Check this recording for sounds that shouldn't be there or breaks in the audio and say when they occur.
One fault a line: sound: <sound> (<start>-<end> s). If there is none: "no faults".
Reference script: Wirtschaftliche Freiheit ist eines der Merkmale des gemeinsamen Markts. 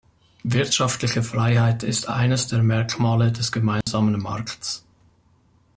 sound: dropout (3.8-3.9 s)